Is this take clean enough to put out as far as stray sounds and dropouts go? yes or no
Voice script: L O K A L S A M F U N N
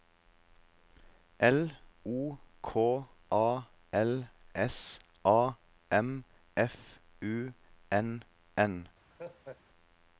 no